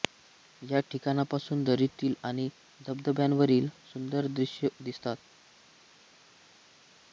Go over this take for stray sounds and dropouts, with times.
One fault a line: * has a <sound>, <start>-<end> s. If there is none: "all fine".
all fine